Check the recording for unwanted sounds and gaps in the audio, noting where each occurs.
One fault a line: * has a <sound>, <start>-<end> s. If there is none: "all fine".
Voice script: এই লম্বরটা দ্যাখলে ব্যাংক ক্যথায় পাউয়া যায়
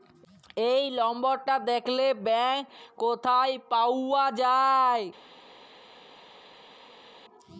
all fine